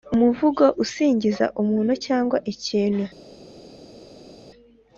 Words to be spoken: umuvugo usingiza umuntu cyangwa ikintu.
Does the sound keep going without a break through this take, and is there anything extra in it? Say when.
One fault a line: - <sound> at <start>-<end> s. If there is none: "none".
none